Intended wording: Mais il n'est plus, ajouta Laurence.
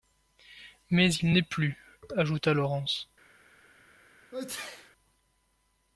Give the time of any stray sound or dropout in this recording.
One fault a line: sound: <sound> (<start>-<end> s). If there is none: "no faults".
sound: sneeze (4.3-4.9 s)